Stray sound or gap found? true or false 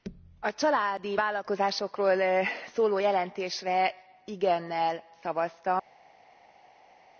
false